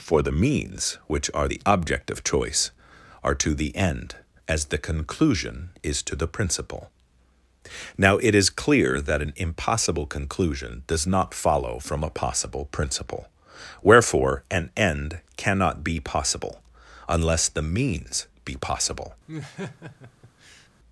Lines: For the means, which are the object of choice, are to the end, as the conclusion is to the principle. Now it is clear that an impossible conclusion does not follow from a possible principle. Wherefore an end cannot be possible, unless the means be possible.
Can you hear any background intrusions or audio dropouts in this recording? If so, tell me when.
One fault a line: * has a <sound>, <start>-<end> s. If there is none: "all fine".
* has a laugh, 19.3-20.7 s